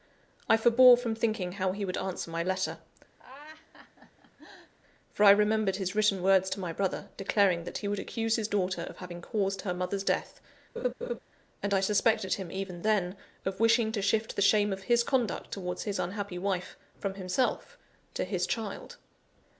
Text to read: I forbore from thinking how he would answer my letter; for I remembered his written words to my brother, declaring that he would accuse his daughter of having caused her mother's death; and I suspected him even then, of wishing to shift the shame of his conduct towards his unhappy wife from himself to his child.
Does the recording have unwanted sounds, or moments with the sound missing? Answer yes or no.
yes